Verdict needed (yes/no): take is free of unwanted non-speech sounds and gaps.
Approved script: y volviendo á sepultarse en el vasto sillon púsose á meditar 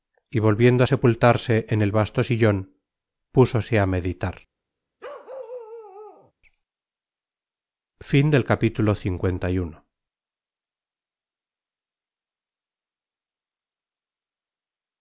no